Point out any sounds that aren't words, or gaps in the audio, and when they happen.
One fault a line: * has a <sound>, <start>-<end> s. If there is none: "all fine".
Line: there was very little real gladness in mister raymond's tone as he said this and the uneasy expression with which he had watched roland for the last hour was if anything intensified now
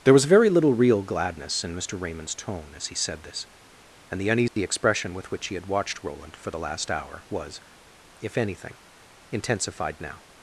* has a dropout, 4.5-4.6 s